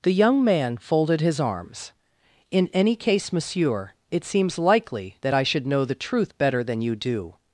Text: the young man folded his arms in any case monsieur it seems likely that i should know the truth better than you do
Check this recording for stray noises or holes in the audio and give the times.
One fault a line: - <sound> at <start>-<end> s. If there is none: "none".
none